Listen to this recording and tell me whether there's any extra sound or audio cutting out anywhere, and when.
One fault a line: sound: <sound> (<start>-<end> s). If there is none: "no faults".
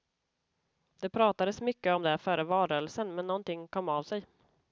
no faults